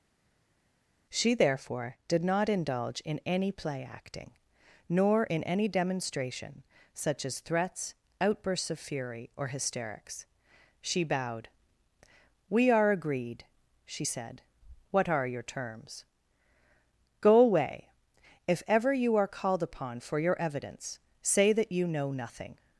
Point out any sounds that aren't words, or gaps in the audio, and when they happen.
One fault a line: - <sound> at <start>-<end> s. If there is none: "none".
none